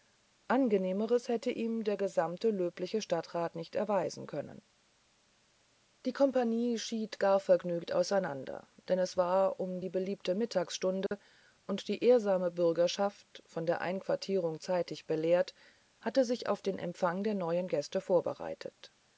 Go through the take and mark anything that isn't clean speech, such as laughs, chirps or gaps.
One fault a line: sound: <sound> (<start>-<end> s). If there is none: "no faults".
sound: dropout (11.1-11.1 s)